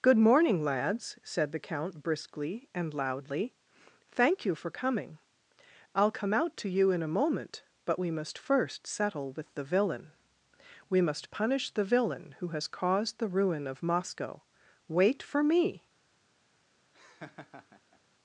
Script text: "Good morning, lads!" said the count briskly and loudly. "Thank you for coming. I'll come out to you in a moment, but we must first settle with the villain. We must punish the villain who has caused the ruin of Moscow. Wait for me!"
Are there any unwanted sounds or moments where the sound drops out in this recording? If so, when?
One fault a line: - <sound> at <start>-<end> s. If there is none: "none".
- laugh at 16.9-18.0 s